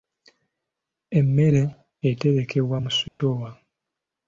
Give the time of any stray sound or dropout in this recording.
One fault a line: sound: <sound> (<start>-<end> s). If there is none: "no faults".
sound: dropout (3.1-3.2 s)